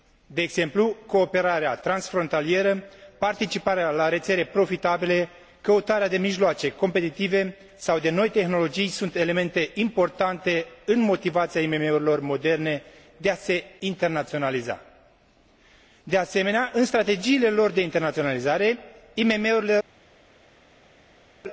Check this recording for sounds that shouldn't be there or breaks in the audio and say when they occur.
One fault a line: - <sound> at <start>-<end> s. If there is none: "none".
none